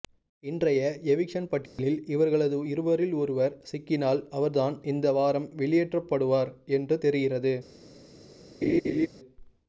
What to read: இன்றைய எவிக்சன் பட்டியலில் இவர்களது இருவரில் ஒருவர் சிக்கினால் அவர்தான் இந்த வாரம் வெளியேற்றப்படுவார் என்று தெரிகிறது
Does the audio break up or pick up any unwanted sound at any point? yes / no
yes